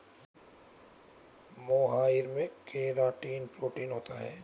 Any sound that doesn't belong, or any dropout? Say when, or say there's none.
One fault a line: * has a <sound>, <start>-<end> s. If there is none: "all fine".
all fine